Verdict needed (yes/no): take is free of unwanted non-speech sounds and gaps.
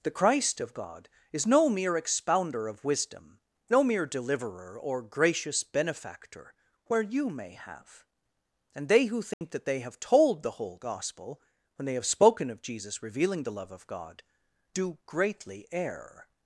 no